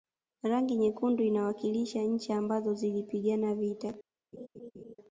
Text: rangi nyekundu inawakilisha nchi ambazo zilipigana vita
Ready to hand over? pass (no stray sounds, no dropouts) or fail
fail